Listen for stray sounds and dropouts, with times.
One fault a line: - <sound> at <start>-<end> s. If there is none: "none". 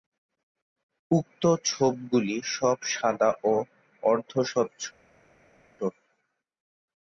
none